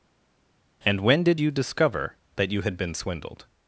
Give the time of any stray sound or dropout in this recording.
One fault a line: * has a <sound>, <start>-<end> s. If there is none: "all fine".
all fine